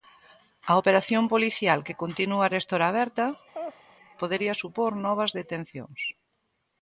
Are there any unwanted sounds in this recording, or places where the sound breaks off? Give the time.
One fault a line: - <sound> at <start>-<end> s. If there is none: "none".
- laugh at 3.5-3.8 s